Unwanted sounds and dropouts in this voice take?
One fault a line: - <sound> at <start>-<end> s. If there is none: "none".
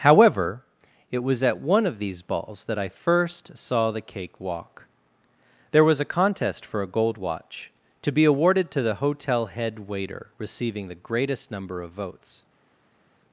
none